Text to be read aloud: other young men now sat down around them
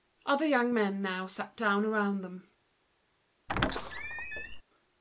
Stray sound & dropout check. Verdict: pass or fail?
fail